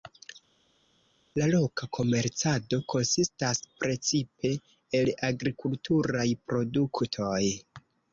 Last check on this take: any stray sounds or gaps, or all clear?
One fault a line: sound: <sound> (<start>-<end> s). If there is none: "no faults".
no faults